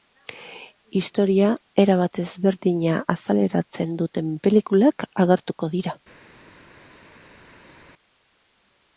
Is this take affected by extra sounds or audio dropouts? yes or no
no